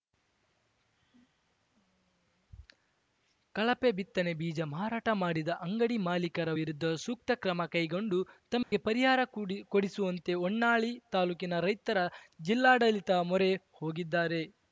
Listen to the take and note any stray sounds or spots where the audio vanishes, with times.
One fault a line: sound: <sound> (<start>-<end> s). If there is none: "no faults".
sound: dropout (8.6-8.7 s)